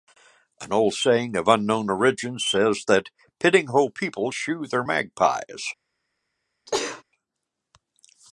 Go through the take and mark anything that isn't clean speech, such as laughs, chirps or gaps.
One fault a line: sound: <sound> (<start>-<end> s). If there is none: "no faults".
sound: sneeze (6.7-7.0 s)